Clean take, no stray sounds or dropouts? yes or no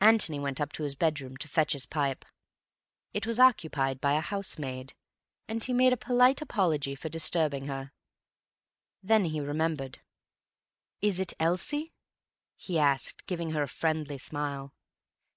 yes